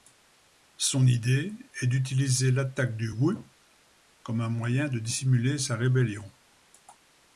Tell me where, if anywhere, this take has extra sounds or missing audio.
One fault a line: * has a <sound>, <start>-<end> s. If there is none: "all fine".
all fine